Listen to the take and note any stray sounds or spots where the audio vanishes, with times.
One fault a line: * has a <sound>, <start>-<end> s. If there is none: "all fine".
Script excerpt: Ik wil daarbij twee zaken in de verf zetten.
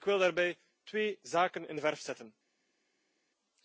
all fine